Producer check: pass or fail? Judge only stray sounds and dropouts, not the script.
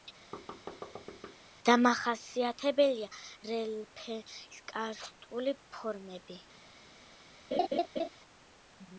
fail